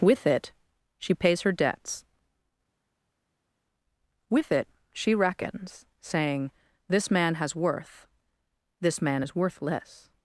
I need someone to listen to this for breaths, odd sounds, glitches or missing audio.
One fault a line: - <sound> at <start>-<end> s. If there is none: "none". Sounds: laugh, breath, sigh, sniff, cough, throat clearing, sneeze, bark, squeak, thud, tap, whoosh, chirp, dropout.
none